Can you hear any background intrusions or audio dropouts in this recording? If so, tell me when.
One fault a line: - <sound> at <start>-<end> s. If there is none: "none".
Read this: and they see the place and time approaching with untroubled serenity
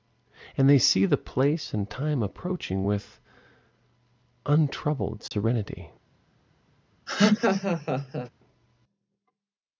- dropout at 5.3-5.3 s
- laugh at 7.1-8.3 s